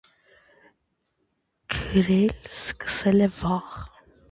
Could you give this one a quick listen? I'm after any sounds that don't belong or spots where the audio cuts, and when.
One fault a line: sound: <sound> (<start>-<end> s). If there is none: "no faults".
no faults